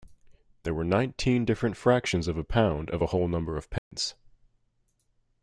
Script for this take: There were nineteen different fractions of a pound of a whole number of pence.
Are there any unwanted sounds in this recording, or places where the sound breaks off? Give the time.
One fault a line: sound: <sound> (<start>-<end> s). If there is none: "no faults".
sound: dropout (3.8-3.9 s)